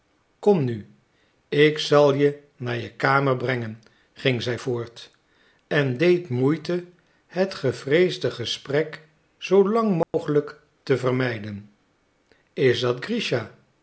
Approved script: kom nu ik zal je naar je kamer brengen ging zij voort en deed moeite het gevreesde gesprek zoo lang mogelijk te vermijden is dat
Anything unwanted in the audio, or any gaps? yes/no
yes